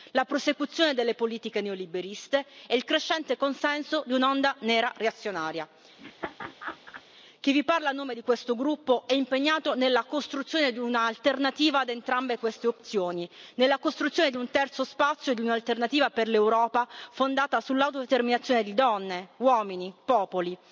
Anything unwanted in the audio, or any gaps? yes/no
yes